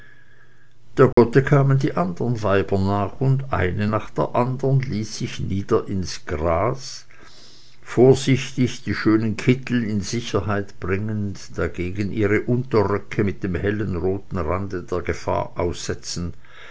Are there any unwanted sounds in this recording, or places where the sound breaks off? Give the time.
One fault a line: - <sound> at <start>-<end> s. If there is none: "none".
- dropout at 1.1-1.2 s